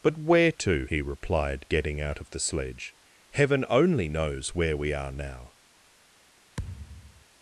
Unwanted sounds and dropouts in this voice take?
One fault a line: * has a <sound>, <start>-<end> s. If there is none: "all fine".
* has a thud, 6.6-7.2 s